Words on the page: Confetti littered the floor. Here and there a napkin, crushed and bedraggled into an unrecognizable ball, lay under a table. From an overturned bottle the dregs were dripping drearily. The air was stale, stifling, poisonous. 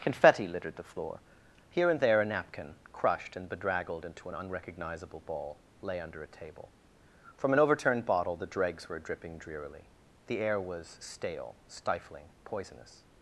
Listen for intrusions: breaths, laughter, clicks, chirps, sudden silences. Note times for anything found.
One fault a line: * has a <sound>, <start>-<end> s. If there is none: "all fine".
all fine